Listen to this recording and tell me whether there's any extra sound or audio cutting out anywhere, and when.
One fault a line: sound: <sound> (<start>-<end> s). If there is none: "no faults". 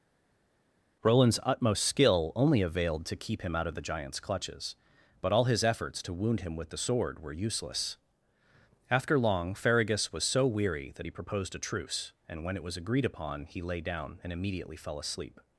no faults